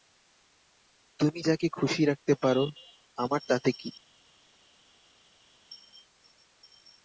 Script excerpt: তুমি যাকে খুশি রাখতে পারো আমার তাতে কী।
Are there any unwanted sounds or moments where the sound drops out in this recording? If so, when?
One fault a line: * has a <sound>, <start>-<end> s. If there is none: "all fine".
all fine